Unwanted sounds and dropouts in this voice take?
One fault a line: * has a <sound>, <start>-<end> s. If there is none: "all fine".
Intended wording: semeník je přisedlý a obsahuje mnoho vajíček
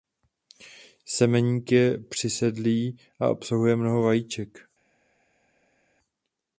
all fine